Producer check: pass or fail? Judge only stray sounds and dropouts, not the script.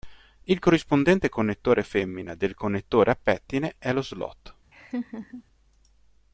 fail